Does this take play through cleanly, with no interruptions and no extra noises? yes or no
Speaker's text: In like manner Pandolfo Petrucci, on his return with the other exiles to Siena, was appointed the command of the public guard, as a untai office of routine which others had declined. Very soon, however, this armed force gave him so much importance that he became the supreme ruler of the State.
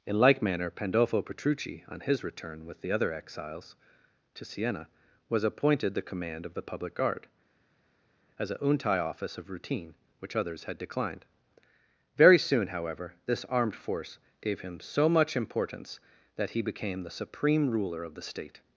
yes